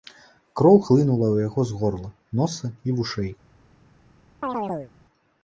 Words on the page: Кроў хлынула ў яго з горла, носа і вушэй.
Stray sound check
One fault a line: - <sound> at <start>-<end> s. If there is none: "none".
- chirp at 4.4-4.9 s